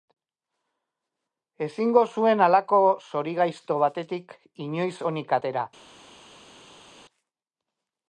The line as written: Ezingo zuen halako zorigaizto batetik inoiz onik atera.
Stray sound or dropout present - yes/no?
no